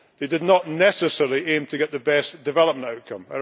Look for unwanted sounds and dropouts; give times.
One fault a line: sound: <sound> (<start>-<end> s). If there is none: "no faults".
no faults